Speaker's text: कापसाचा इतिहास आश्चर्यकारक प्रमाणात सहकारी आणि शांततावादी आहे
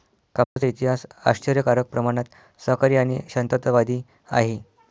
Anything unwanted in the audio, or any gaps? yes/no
yes